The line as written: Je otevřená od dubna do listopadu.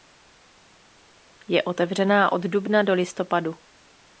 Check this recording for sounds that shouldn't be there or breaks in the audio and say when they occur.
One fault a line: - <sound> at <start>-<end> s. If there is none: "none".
none